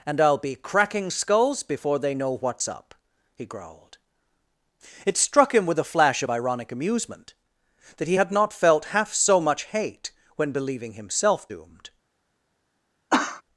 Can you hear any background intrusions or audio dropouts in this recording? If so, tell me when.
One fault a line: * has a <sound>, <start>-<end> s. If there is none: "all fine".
* has a cough, 13.1-13.4 s